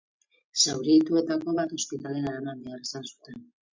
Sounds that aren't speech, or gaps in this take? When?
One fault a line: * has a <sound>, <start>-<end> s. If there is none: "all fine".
all fine